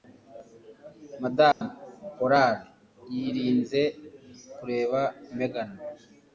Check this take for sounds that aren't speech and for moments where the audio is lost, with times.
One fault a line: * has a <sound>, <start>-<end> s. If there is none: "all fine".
* has a dropout, 1.5-1.6 s